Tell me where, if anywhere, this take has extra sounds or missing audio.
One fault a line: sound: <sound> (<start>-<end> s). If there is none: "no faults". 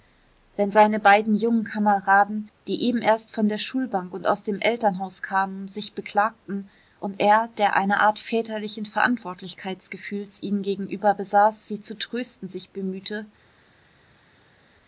no faults